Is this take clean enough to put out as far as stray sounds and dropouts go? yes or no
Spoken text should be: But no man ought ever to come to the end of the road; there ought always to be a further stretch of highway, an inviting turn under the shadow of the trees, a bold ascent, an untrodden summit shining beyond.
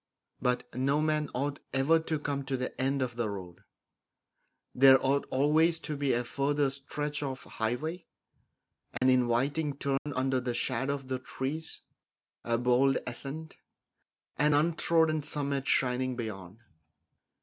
no